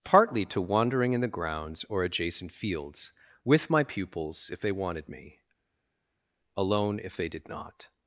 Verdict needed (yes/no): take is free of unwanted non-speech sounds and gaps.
yes